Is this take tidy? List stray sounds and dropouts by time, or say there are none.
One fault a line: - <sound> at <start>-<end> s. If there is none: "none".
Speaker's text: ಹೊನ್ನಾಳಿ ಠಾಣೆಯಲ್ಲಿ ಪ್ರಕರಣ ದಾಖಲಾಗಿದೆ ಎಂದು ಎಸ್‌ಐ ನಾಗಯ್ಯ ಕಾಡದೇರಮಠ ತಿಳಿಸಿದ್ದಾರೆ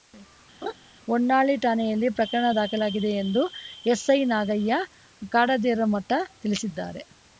- laugh at 0.6-0.7 s